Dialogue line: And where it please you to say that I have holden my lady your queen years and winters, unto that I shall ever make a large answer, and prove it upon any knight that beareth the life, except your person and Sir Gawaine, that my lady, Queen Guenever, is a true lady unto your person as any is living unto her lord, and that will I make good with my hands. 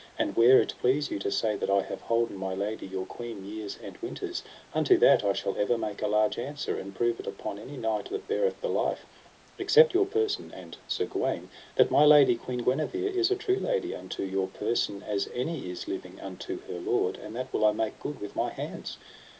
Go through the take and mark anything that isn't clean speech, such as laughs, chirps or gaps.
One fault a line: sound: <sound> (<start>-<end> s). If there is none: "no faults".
no faults